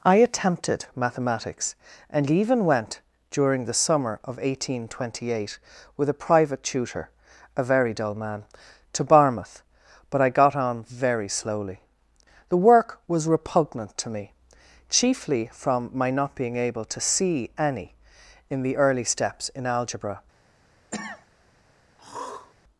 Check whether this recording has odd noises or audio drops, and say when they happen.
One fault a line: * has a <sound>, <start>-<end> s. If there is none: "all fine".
* has a cough, 20.9-21.3 s
* has a throat clearing, 22.0-22.5 s